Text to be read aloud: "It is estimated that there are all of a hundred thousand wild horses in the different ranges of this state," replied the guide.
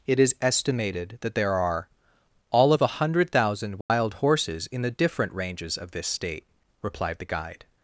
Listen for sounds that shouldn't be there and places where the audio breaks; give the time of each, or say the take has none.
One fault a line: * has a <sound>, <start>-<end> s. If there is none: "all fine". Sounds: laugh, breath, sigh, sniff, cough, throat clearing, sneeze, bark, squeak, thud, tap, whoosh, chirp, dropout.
* has a dropout, 3.8-3.9 s